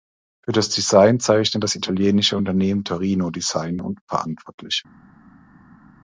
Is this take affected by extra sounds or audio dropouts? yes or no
no